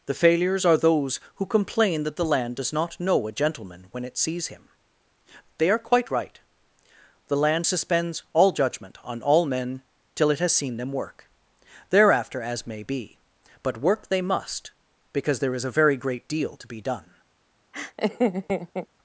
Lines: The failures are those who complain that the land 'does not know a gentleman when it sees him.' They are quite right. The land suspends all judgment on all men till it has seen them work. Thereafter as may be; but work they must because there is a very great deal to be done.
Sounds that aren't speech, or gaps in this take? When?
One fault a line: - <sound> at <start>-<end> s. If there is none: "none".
- laugh at 17.7-18.9 s